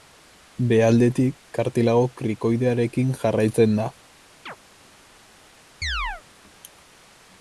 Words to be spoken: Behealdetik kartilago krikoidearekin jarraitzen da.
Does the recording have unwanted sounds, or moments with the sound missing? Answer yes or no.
yes